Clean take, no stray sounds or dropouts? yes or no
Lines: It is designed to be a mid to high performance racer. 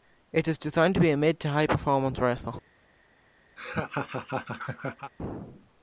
no